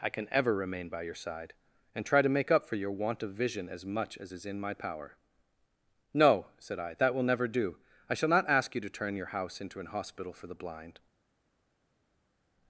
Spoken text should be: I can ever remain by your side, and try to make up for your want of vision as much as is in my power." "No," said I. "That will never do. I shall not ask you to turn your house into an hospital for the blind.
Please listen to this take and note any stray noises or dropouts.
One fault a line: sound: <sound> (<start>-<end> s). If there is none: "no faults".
no faults